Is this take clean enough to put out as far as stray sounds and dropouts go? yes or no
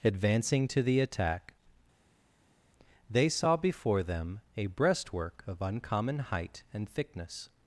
yes